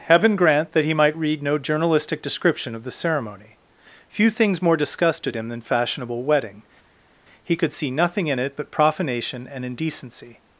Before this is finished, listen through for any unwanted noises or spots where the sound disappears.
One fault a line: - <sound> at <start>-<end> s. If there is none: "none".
none